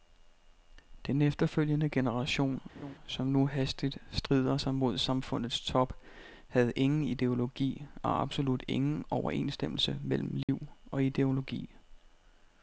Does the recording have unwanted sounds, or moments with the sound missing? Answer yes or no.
yes